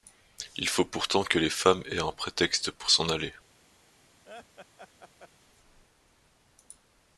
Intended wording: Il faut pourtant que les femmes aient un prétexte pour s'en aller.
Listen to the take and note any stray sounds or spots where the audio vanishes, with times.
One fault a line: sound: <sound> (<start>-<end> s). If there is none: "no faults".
sound: laugh (4.2-5.3 s)